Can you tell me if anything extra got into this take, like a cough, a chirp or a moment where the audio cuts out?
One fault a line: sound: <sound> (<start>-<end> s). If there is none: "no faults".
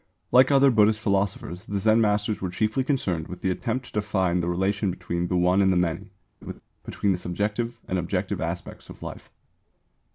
sound: laugh (6.4-6.6 s)